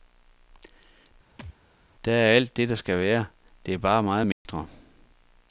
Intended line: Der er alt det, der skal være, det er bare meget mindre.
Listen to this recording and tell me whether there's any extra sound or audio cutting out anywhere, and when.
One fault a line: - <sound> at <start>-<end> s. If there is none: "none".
- thud at 1.4-1.6 s
- dropout at 4.3-4.5 s